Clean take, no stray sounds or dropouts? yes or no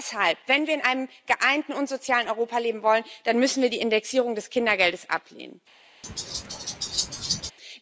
no